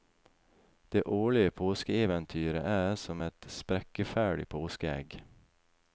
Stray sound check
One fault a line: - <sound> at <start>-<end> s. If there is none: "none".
none